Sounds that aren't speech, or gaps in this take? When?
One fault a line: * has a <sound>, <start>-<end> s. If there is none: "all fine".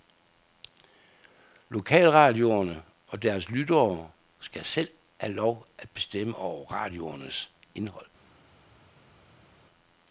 all fine